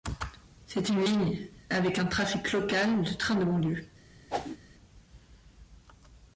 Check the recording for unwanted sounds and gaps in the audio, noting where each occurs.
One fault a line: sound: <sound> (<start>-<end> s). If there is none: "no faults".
sound: whoosh (4.3-4.6 s)